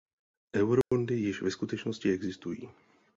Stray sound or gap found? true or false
true